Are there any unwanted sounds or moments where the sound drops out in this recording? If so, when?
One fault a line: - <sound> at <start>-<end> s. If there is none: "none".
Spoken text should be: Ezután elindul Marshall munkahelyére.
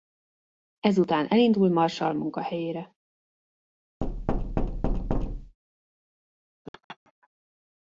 - thud at 4.0-5.6 s
- laugh at 6.6-7.3 s